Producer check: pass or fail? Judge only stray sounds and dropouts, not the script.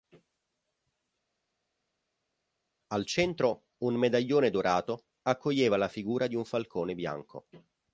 pass